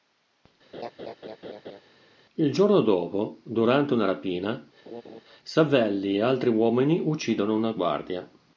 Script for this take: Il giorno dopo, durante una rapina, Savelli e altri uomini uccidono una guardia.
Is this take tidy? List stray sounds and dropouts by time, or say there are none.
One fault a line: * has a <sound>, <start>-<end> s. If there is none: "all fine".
* has a laugh, 0.7-1.8 s
* has a laugh, 4.9-5.2 s